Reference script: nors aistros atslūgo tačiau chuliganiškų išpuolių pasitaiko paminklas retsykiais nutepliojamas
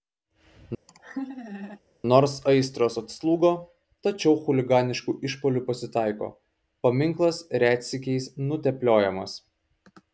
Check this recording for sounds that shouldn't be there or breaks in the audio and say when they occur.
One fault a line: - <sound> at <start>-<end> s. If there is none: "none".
- laugh at 0.9-1.8 s